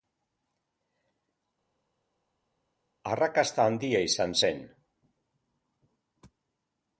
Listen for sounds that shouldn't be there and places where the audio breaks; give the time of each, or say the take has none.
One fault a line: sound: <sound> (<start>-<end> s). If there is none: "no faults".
no faults